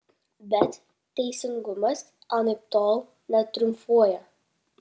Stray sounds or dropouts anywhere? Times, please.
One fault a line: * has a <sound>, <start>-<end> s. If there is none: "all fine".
all fine